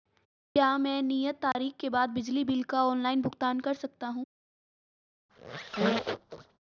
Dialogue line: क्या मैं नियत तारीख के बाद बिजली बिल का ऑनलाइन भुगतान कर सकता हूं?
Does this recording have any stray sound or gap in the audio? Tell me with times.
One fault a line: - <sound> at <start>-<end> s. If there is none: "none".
- dropout at 1.5-1.5 s
- squeak at 5.3-6.6 s